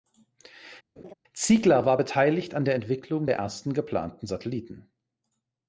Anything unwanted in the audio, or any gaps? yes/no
yes